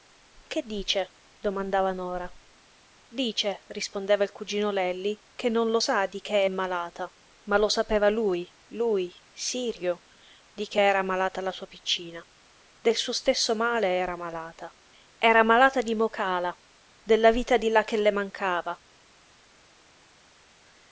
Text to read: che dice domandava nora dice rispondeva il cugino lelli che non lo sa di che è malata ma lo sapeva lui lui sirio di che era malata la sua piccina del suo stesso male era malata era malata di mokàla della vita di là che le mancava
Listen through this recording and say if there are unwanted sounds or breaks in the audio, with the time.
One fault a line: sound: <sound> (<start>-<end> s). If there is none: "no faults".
no faults